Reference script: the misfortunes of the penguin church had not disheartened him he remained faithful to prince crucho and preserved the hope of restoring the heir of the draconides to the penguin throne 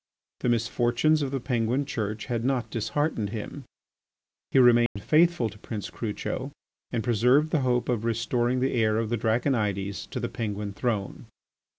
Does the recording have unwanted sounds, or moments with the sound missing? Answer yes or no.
yes